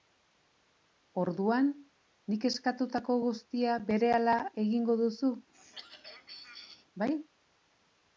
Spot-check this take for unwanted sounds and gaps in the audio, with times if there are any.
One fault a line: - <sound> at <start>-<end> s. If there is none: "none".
- throat clearing at 5.5-6.9 s